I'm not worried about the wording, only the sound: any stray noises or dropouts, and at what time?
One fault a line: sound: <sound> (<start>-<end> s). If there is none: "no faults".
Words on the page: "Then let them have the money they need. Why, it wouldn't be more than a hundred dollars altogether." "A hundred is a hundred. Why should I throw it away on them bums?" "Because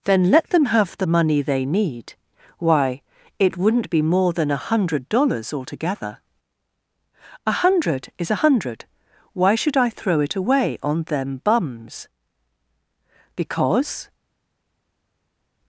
no faults